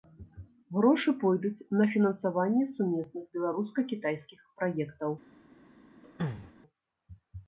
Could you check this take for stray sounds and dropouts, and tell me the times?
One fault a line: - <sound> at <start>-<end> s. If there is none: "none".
- throat clearing at 6.0-6.5 s